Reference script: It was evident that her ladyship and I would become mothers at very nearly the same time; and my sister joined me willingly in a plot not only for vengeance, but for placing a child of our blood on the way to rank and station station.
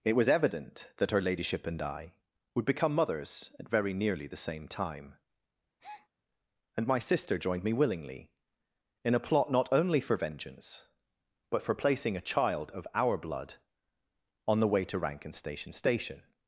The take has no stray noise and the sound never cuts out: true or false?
false